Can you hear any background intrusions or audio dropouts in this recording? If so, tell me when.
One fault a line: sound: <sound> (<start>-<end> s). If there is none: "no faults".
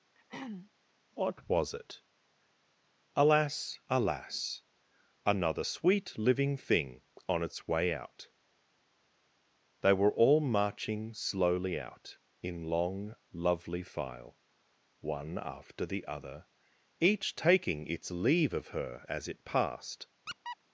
sound: throat clearing (0.1-0.7 s)
sound: squeak (20.3-20.6 s)